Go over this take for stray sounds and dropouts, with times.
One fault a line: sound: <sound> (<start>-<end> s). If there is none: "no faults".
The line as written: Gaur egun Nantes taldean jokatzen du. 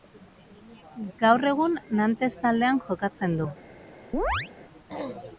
sound: chirp (4.1-4.5 s)